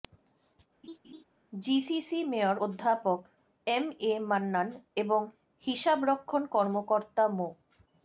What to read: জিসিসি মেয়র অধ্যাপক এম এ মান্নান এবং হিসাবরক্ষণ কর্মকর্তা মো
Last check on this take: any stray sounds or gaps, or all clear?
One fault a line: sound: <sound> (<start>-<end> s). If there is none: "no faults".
sound: laugh (0.8-1.2 s)